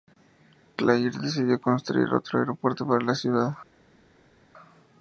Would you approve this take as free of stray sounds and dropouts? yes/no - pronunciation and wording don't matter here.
yes